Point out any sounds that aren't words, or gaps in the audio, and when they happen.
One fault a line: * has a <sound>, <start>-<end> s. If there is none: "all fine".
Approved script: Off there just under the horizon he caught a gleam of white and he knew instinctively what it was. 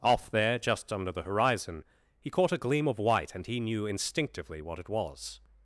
all fine